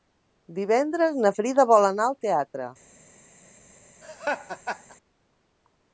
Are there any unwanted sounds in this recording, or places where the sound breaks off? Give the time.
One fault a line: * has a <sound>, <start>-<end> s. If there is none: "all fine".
* has a laugh, 4.0-5.0 s